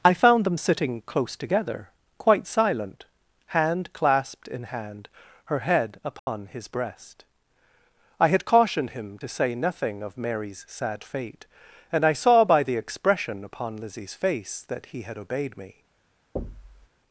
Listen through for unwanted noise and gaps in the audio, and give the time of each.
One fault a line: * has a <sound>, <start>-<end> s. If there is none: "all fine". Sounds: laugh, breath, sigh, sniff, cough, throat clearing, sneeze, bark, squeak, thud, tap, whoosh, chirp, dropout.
* has a dropout, 6.2-6.3 s
* has a thud, 16.4-16.9 s